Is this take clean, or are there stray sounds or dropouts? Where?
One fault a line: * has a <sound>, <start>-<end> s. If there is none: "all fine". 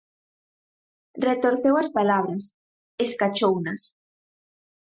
all fine